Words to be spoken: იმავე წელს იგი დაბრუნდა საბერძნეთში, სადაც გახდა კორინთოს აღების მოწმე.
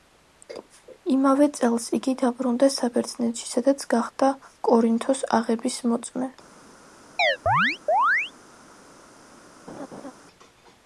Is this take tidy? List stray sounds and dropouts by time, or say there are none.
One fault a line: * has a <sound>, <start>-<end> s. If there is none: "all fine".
* has a chirp, 7.2-8.3 s
* has a laugh, 9.7-10.1 s